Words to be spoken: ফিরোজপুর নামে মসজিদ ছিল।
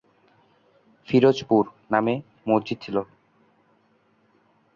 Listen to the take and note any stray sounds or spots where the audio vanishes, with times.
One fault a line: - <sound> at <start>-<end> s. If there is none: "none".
none